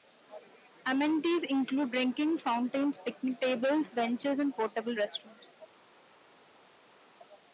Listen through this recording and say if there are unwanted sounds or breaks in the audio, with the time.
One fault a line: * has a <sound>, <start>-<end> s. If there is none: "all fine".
all fine